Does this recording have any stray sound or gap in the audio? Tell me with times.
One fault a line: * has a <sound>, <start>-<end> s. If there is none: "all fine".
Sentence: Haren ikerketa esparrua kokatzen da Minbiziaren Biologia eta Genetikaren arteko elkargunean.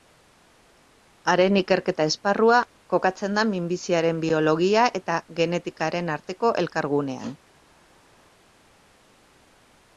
all fine